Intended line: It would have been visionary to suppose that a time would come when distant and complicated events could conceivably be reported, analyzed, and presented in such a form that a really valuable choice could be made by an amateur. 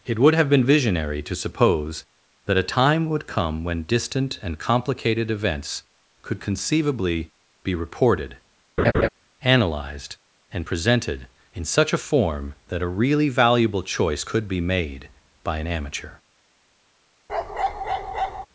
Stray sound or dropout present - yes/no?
yes